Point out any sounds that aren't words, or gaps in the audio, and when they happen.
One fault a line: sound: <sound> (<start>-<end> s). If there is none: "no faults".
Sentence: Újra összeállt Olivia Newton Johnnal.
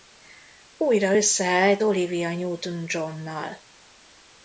no faults